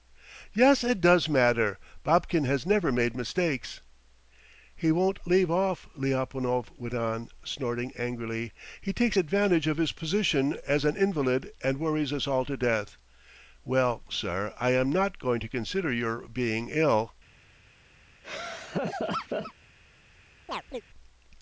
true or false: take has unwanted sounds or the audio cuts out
true